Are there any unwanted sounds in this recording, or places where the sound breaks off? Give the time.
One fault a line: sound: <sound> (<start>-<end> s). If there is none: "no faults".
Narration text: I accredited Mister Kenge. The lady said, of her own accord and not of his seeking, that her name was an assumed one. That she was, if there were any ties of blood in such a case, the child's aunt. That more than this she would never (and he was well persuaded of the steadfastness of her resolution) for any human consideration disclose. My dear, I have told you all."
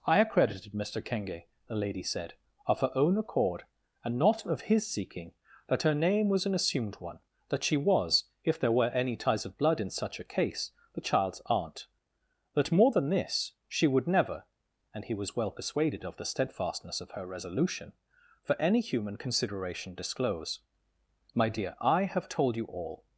no faults